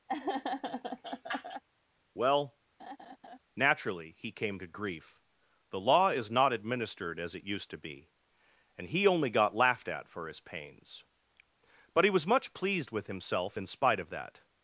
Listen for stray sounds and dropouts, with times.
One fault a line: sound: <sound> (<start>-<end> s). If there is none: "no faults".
sound: laugh (0.1-1.6 s)
sound: laugh (2.8-3.4 s)